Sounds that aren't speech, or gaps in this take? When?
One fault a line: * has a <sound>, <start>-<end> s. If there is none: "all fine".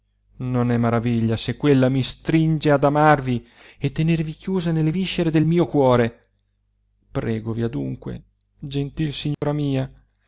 * has a dropout, 9.3-9.4 s